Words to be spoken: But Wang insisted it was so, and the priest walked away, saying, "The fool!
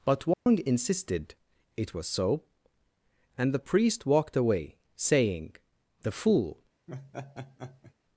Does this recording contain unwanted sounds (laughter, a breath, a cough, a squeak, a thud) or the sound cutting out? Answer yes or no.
yes